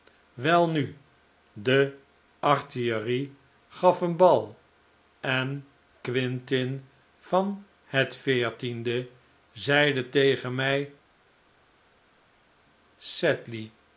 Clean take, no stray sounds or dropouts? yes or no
yes